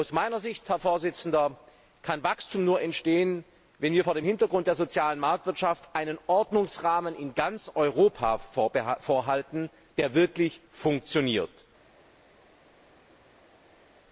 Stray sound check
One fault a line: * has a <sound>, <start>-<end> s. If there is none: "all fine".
all fine